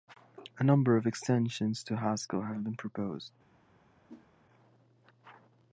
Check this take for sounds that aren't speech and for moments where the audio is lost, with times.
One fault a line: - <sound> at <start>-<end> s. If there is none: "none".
- whoosh at 4.1-4.3 s